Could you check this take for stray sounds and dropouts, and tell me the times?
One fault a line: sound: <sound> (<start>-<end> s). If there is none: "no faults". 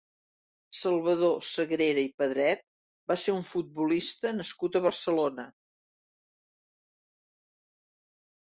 no faults